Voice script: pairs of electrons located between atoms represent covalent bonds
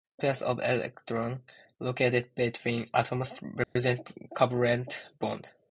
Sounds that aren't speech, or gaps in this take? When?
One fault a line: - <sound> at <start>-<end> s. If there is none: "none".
- dropout at 3.6-3.8 s